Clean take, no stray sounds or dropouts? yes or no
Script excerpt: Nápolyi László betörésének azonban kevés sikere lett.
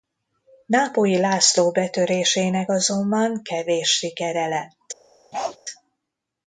no